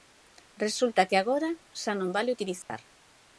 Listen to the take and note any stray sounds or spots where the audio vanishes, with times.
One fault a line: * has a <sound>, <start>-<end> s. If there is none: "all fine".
* has a dropout, 2.6-2.7 s